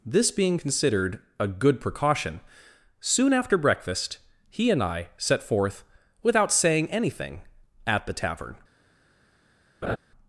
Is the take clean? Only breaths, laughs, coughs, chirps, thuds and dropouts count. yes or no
no